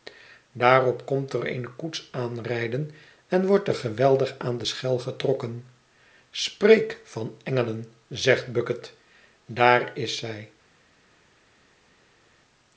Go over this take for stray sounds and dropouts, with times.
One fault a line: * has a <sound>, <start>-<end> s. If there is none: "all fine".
all fine